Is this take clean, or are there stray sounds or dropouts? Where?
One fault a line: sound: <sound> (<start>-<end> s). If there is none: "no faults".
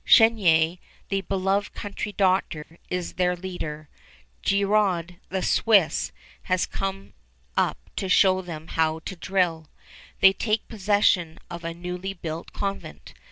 sound: dropout (2.6-2.7 s)